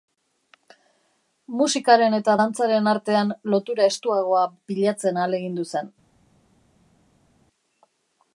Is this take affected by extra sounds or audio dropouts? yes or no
no